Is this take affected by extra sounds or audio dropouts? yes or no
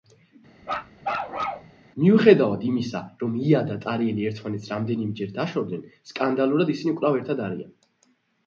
yes